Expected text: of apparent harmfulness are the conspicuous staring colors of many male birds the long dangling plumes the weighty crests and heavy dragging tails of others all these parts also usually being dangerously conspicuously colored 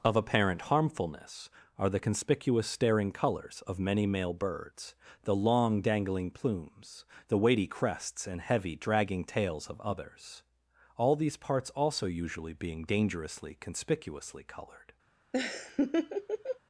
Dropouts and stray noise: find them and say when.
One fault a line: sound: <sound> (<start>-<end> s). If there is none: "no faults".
sound: laugh (15.3-16.6 s)